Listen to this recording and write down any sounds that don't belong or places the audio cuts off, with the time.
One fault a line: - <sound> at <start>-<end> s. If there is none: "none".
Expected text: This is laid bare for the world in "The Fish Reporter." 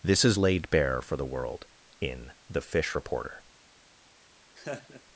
- laugh at 4.6-5.0 s